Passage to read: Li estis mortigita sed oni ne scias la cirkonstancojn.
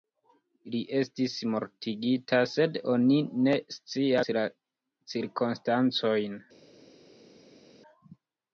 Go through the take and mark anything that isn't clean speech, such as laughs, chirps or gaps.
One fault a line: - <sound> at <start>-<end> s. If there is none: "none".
none